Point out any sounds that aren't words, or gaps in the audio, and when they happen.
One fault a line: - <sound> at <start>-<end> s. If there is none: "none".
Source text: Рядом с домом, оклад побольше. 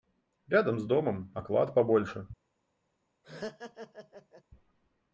- laugh at 3.2-4.4 s